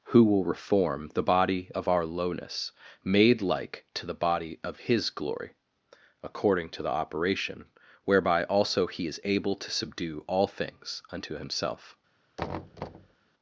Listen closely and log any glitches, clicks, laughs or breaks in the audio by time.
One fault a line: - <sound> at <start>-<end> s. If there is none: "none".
- thud at 12.4-13.2 s